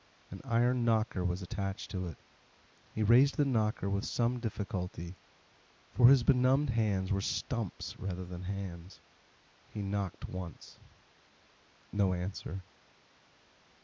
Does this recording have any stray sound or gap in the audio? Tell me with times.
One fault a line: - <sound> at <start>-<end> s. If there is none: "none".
none